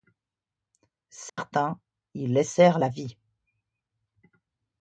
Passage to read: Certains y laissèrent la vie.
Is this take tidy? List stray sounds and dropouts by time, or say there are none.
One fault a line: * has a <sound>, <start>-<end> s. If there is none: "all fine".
* has a dropout, 1.3-1.4 s